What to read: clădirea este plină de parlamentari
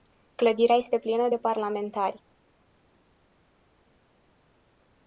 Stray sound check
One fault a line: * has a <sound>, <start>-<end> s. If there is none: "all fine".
all fine